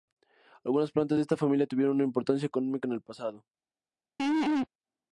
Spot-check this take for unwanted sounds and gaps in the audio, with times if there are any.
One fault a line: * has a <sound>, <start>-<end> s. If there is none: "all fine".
* has a laugh, 4.2-4.7 s